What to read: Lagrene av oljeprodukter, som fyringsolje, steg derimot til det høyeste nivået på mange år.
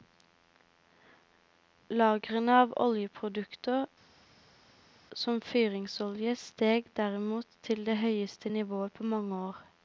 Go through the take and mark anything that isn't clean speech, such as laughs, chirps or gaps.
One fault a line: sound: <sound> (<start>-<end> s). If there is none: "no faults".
no faults